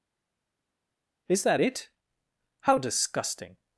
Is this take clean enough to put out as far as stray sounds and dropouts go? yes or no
yes